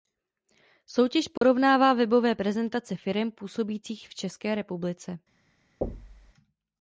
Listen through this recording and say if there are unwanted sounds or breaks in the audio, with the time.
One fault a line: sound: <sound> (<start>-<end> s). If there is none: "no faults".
sound: dropout (1.4-1.4 s)
sound: thud (5.8-6.3 s)